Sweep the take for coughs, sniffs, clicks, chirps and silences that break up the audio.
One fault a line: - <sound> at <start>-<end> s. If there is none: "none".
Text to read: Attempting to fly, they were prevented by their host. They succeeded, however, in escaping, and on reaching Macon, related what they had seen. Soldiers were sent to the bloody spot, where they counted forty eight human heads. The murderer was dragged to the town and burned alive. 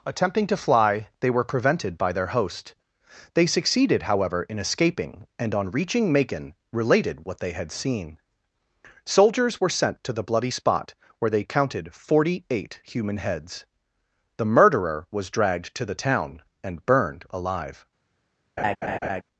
- laugh at 18.6-19.2 s